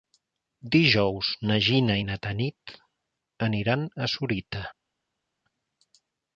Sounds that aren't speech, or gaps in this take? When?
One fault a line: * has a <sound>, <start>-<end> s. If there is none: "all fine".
all fine